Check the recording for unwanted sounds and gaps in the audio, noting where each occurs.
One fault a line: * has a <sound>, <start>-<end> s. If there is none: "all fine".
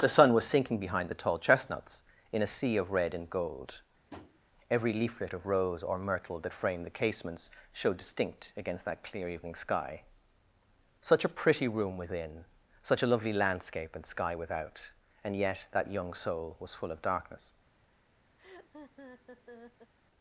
* has a tap, 4.1-4.4 s
* has a laugh, 18.4-19.9 s